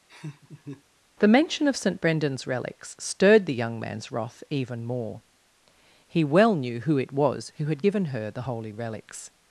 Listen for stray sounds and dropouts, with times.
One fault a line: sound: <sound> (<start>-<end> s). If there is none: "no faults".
sound: laugh (0.1-0.8 s)